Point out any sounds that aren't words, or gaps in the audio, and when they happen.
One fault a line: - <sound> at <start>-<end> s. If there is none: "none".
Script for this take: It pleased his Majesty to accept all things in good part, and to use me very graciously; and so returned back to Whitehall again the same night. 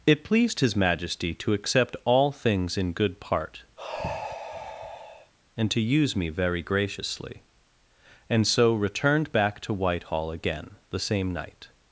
- sigh at 3.8-5.3 s